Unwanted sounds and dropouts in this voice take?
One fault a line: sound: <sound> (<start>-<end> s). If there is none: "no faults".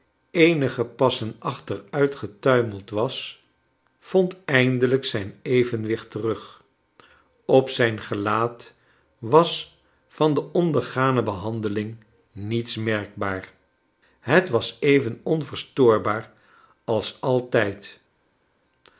no faults